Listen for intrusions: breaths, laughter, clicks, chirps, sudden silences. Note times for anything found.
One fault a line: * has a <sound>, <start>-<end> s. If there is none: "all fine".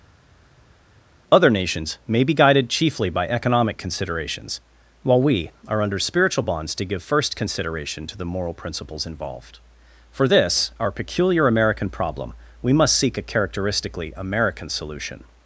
all fine